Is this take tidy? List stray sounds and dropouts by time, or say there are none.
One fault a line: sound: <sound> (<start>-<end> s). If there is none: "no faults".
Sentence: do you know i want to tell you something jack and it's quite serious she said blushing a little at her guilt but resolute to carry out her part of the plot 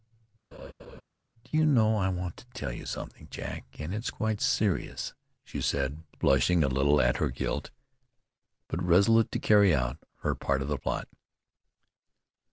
sound: laugh (0.5-1.0 s)